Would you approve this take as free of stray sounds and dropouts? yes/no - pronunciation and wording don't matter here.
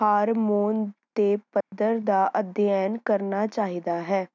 no